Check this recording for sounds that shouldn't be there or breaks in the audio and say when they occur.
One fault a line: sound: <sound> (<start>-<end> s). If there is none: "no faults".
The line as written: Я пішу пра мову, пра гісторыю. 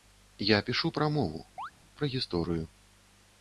sound: chirp (1.6-1.7 s)